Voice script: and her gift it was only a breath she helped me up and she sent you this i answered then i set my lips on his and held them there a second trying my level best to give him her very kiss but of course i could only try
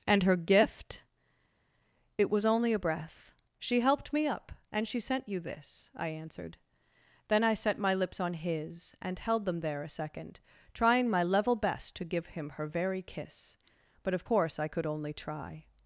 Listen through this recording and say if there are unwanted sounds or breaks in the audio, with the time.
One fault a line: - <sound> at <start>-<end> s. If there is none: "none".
none